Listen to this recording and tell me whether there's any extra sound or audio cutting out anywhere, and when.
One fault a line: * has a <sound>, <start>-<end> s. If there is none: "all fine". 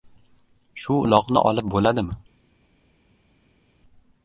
all fine